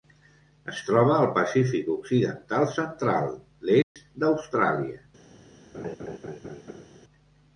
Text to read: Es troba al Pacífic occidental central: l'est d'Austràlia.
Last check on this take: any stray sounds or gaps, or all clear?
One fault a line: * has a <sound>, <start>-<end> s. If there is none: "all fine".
* has a dropout, 3.8-4.0 s
* has a laugh, 5.7-6.8 s